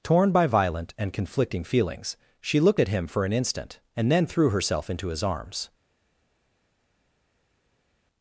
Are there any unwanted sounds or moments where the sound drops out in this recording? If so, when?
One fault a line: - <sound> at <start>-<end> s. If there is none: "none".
none